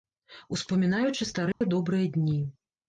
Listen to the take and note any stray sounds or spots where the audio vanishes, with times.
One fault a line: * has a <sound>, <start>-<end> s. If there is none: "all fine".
* has a dropout, 1.5-1.6 s